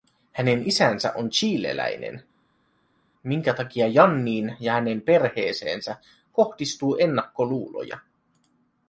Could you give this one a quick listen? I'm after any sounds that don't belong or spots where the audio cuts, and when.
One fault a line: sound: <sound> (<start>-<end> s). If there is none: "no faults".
no faults